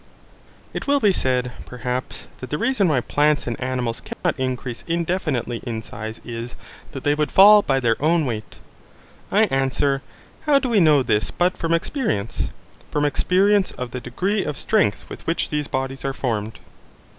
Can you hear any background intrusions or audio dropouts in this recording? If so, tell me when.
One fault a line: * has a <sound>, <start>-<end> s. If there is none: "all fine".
* has a dropout, 4.1-4.2 s